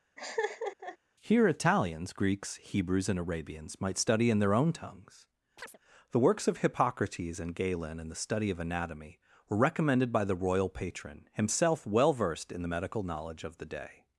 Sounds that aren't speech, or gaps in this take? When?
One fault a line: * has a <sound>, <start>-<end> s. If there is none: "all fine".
* has a laugh, 0.2-1.0 s
* has a chirp, 5.6-5.8 s